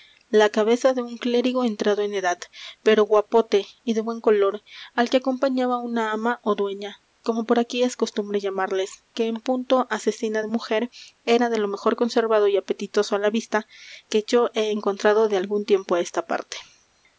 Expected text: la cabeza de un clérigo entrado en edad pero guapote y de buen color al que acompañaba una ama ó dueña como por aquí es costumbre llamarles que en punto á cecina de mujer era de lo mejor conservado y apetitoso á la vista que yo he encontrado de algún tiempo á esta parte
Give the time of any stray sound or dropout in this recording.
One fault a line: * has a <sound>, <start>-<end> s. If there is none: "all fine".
all fine